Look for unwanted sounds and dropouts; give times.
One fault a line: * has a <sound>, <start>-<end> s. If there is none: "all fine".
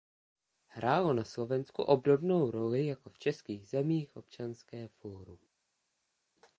all fine